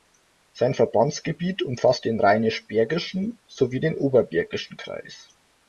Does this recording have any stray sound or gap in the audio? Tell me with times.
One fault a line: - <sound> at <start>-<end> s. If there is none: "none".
none